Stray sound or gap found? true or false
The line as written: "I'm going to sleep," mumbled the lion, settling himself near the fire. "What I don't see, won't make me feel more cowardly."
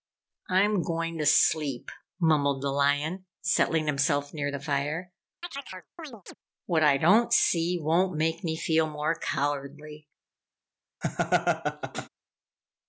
true